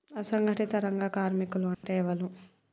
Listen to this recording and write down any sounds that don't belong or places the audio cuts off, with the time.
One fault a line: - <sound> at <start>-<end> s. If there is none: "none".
- dropout at 1.7-1.8 s